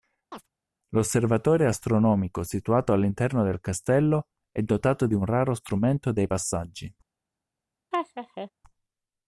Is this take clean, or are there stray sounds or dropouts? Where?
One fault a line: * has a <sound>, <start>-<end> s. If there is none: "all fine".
* has a chirp, 0.3-0.5 s
* has a laugh, 7.9-8.5 s